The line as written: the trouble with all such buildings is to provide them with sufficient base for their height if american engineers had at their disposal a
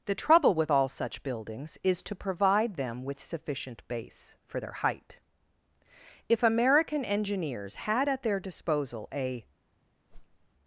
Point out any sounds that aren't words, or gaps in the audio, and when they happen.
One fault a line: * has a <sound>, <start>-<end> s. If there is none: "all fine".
* has a whoosh, 10.1-10.5 s